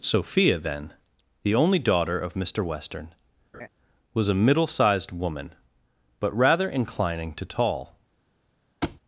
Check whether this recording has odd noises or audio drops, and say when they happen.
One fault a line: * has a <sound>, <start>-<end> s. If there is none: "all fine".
* has a laugh, 3.5-3.7 s
* has a thud, 8.8-9.0 s